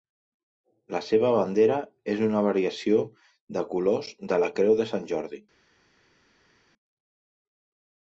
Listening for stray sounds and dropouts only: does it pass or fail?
pass